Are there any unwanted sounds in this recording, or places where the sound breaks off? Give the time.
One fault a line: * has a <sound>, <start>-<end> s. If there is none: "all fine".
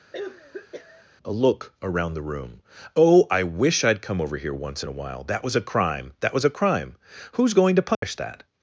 * has a cough, 0.1-1.1 s
* has a dropout, 7.9-8.0 s